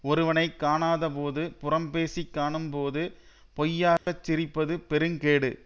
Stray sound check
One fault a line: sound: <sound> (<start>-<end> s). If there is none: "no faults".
sound: dropout (4.0-4.1 s)